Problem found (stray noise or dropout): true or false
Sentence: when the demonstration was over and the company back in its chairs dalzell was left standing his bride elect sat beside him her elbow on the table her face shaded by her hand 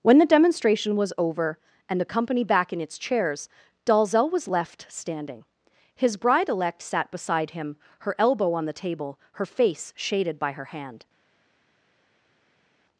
false